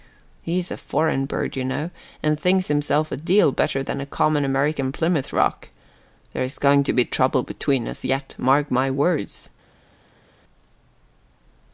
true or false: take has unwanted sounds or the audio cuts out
false